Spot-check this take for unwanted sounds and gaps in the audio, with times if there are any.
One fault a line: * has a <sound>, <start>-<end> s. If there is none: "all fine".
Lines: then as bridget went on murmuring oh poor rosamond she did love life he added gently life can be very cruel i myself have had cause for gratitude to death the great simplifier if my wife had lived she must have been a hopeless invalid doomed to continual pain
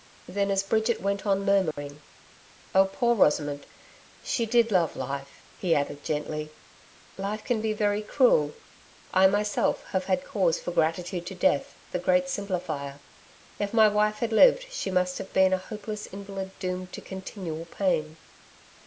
* has a dropout, 1.7-1.8 s